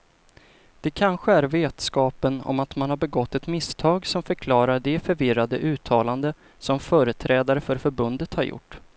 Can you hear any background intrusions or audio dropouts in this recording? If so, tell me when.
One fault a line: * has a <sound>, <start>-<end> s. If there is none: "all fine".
all fine